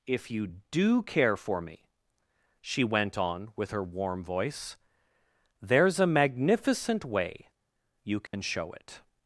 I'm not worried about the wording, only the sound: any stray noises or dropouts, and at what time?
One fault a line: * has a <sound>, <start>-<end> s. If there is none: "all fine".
* has a dropout, 8.3-8.3 s